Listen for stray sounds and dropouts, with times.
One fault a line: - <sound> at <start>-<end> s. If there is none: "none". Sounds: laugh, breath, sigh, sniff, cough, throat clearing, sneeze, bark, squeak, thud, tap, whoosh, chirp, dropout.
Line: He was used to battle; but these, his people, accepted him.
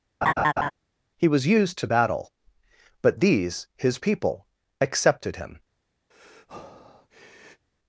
- laugh at 0.2-0.7 s
- breath at 6.1-7.7 s